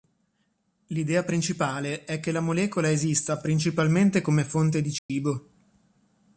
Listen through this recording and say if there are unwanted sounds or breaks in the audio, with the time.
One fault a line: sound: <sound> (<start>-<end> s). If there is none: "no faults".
sound: dropout (5.0-5.1 s)